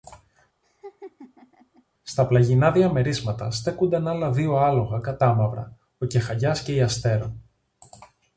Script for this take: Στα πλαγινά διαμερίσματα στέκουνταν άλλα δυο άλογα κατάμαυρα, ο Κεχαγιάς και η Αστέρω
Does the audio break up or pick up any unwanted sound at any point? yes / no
yes